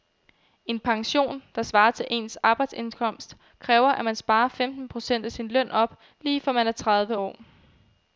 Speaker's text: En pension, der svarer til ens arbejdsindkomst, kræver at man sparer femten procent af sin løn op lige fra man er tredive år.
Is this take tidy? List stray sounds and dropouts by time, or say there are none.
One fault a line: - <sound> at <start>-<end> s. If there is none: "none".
none